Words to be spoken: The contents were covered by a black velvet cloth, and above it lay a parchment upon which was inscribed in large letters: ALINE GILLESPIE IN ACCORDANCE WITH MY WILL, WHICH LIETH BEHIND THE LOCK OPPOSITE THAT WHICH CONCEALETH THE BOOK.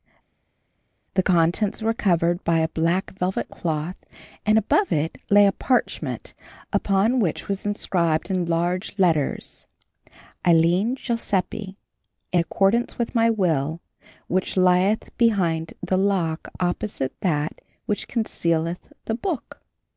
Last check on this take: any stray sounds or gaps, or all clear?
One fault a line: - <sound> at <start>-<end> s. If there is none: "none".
none